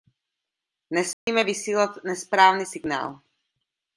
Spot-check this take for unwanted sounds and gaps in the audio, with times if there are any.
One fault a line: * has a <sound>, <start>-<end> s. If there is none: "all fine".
* has a dropout, 1.1-1.3 s